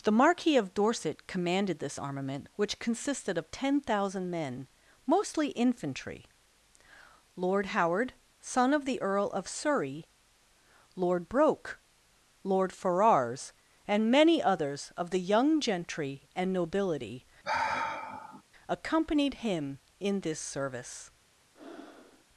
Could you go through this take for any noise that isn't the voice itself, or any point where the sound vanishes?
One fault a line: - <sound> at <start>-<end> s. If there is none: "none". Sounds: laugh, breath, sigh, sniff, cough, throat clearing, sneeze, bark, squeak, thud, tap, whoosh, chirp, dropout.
- sigh at 17.4-18.4 s
- breath at 21.5-22.2 s